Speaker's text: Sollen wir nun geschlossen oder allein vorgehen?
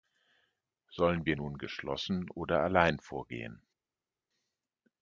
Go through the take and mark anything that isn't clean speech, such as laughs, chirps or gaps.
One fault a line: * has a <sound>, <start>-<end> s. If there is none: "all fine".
all fine